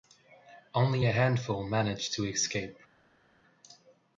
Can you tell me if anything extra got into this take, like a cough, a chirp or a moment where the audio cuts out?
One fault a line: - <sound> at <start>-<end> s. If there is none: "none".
none